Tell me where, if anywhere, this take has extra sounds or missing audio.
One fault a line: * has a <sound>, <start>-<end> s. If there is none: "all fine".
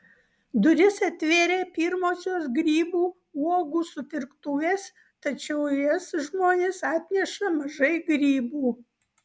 all fine